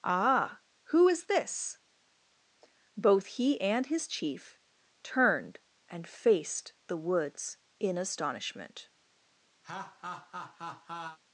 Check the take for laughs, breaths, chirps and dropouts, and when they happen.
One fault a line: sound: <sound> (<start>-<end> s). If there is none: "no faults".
sound: laugh (9.6-11.2 s)